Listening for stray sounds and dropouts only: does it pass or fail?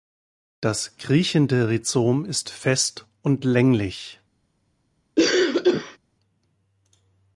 fail